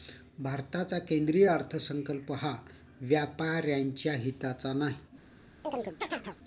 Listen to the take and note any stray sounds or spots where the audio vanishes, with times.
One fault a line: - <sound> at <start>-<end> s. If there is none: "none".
- chirp at 5.6-6.4 s